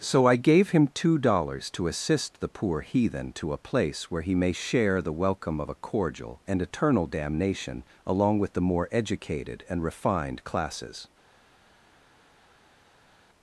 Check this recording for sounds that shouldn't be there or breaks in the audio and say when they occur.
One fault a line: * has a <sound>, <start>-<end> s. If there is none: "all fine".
all fine